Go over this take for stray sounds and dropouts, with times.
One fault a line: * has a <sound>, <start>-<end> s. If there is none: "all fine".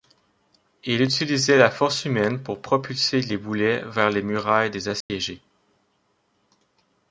* has a dropout, 5.0-5.1 s